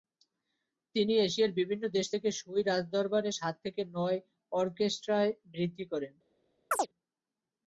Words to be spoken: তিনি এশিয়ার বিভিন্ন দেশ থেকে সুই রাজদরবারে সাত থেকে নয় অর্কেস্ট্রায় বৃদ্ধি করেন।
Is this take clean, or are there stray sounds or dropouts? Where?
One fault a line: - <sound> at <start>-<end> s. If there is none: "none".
- chirp at 6.7-6.9 s